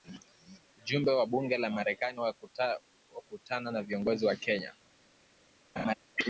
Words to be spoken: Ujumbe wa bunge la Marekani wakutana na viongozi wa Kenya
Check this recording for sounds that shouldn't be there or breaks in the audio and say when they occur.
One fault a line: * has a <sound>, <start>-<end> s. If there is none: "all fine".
* has a laugh, 5.8-5.9 s